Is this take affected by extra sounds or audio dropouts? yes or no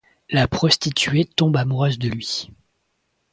no